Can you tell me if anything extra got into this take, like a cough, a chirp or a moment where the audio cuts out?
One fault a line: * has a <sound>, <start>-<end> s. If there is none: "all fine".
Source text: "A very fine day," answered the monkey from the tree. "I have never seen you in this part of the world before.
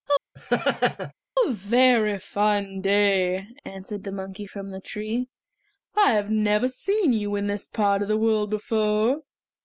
* has a laugh, 0.3-1.1 s